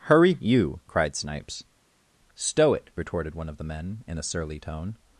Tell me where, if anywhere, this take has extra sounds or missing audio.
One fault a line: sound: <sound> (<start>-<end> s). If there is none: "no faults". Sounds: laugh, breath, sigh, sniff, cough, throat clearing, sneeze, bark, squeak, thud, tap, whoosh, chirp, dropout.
no faults